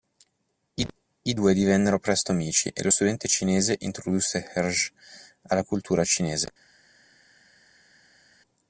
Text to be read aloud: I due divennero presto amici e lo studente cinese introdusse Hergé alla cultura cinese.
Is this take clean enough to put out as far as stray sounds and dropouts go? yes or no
yes